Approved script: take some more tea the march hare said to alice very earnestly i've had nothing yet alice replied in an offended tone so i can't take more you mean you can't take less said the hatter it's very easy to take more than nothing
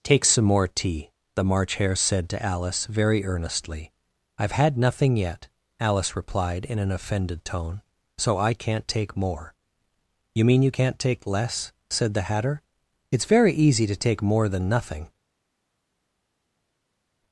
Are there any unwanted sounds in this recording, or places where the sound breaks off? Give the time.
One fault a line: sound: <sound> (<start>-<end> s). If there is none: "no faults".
no faults